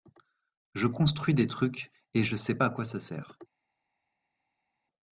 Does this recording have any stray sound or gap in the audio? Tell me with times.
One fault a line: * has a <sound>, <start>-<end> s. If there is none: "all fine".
all fine